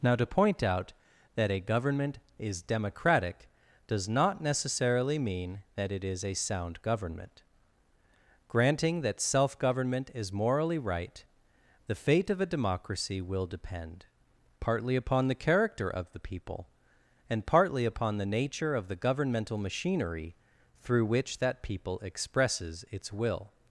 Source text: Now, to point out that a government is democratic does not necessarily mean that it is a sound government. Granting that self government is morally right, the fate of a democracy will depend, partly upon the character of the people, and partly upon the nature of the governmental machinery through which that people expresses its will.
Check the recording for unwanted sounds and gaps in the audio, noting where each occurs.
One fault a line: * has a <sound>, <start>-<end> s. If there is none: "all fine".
all fine